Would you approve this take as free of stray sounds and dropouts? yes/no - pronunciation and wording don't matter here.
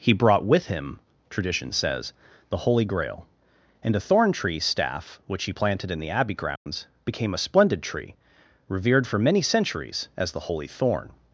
no